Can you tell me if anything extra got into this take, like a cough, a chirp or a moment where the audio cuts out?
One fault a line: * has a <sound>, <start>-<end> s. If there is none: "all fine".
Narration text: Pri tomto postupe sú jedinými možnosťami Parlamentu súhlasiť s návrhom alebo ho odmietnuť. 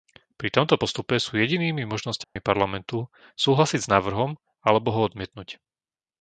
* has a dropout, 2.2-2.4 s